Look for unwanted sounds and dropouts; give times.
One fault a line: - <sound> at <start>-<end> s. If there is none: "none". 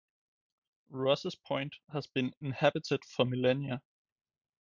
none